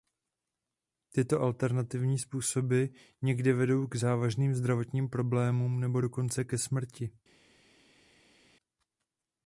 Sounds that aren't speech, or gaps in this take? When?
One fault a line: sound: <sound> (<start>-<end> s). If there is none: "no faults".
no faults